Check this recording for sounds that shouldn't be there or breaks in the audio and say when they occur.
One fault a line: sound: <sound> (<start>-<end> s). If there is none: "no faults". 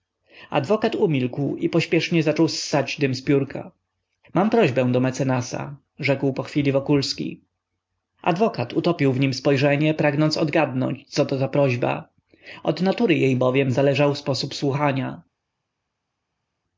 no faults